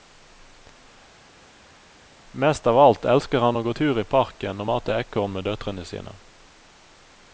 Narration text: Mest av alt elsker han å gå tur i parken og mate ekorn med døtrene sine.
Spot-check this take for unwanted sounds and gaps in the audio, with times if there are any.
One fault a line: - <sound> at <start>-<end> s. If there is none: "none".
none